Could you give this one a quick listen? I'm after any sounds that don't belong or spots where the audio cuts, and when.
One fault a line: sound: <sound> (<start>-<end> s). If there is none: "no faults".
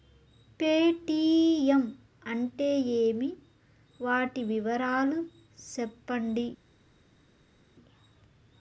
no faults